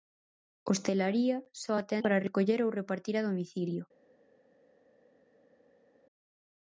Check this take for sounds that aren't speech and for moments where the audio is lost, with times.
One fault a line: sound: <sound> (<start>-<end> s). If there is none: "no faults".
no faults